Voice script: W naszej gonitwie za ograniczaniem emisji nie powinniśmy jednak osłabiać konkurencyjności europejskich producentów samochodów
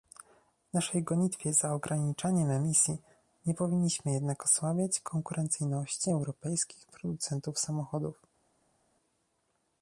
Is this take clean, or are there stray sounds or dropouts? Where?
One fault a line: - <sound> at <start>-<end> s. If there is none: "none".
none